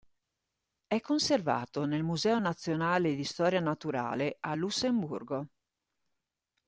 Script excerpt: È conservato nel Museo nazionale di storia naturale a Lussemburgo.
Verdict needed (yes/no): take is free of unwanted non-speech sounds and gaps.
yes